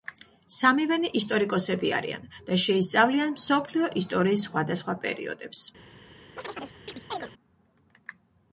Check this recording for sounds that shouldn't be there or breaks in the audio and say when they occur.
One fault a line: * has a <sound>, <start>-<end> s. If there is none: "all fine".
* has a chirp, 6.4-7.3 s